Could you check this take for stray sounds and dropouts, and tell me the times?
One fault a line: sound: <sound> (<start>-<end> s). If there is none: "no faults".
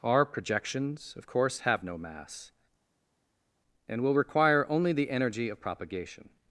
no faults